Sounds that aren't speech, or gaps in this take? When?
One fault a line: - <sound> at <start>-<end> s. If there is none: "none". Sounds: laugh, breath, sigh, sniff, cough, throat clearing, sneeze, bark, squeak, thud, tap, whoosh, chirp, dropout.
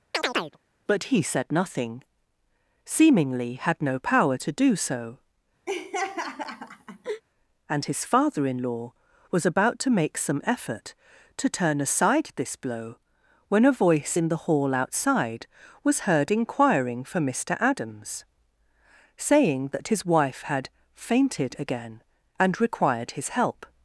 - chirp at 0.1-0.6 s
- laugh at 5.7-7.2 s